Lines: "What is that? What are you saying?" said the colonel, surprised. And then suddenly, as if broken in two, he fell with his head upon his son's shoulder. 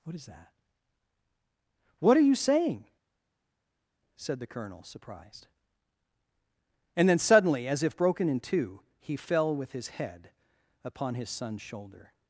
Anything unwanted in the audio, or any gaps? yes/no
no